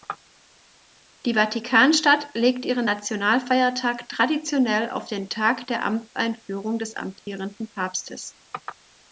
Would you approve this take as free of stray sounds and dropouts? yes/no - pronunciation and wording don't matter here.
no